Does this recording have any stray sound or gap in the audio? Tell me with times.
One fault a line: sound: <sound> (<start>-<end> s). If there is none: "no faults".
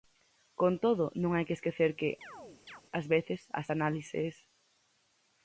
sound: chirp (2.2-2.8 s)